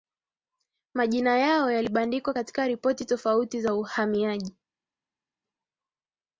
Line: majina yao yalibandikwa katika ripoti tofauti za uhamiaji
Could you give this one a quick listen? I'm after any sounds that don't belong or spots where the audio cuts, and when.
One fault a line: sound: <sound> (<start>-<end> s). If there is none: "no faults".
no faults